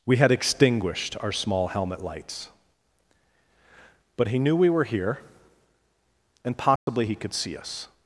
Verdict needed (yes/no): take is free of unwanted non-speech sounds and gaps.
no